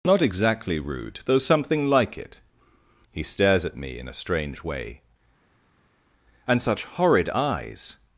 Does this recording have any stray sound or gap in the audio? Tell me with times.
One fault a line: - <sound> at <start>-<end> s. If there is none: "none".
none